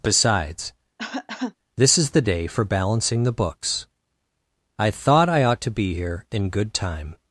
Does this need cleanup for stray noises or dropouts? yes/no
yes